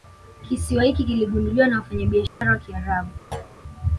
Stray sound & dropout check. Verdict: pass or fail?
fail